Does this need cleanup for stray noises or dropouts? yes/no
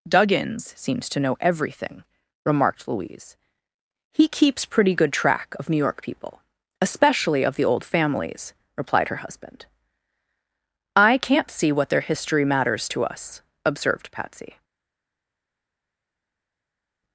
no